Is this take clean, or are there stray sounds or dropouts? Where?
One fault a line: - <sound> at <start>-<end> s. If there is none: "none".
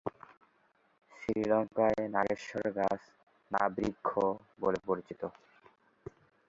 none